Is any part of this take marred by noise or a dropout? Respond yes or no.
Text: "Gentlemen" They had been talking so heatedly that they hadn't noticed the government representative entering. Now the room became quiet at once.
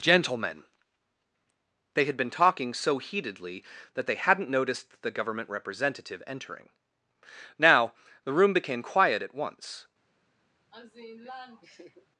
yes